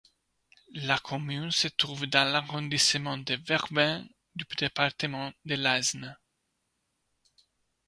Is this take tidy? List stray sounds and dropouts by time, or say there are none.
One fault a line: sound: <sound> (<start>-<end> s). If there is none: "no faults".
no faults